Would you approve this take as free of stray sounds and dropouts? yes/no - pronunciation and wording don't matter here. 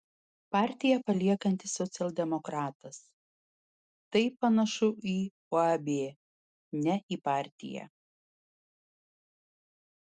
yes